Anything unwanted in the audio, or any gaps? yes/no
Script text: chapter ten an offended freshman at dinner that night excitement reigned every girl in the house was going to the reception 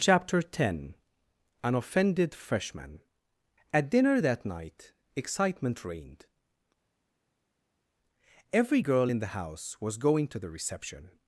no